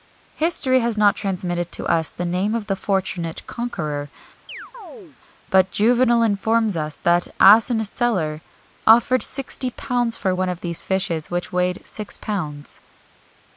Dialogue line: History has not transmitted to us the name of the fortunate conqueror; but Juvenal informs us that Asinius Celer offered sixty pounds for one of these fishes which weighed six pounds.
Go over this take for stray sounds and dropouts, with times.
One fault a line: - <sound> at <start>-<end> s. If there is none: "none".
- chirp at 4.5-5.2 s